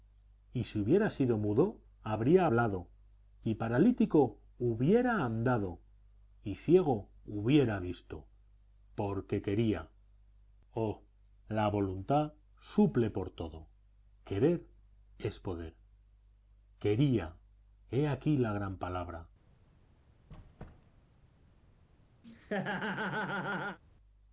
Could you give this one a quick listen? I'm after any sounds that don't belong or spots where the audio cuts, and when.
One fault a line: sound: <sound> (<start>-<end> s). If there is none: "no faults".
sound: squeak (20.3-21.1 s)
sound: laugh (22.2-23.8 s)